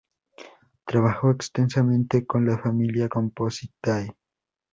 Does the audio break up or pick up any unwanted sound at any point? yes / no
no